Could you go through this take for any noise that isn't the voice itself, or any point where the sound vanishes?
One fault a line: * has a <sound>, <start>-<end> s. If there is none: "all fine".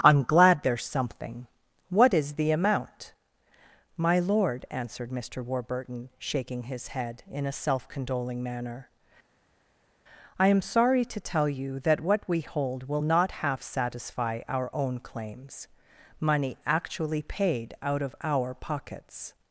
all fine